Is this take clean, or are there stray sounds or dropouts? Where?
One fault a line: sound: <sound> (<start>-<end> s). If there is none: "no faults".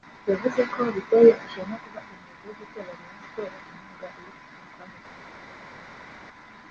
no faults